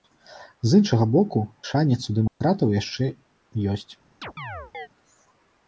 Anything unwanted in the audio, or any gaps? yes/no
yes